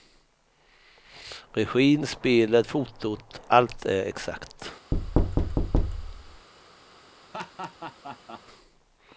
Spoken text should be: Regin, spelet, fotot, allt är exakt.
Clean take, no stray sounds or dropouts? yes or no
no